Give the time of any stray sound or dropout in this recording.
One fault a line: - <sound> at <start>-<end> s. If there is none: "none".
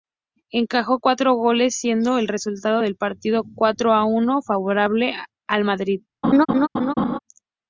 - laugh at 6.2-7.2 s